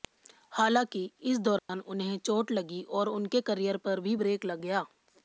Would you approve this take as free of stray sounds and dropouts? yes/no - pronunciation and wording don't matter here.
no